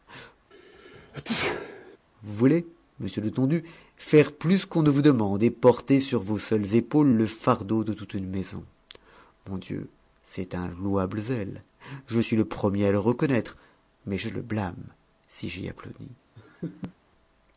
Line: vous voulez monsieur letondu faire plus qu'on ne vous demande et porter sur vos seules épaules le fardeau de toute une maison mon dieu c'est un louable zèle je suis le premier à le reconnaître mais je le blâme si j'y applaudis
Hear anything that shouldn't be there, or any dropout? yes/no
yes